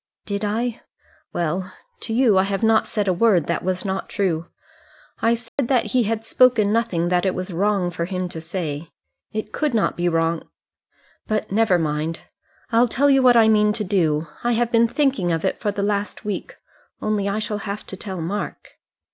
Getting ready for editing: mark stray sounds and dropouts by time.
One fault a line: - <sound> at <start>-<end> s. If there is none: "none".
- dropout at 5.5-5.6 s